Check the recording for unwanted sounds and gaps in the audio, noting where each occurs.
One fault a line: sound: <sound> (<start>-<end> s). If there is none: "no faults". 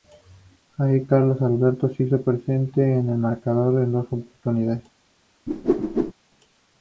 sound: whoosh (5.5-6.1 s)